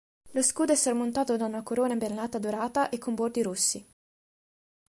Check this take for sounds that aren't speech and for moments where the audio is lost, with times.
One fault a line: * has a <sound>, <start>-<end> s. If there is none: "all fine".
all fine